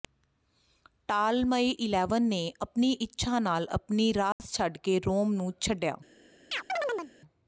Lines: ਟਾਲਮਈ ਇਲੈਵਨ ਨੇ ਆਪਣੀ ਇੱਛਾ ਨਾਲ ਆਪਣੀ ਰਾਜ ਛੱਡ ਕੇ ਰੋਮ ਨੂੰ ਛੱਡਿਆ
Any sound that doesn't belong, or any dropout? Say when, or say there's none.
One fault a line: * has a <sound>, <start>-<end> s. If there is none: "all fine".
* has a dropout, 4.3-4.4 s
* has a chirp, 6.5-7.1 s